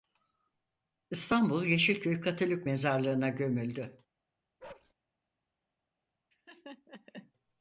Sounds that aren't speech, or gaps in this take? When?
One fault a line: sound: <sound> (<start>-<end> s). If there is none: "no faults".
sound: bark (4.6-4.9 s)
sound: laugh (6.3-7.3 s)